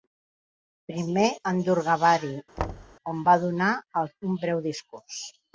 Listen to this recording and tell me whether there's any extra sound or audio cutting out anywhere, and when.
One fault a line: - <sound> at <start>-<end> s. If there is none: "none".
- thud at 2.6-3.0 s